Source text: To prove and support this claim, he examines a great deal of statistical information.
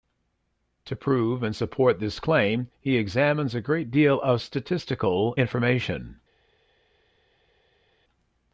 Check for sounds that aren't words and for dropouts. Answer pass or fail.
pass